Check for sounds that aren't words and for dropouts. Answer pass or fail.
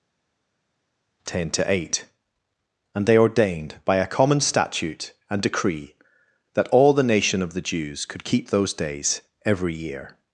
pass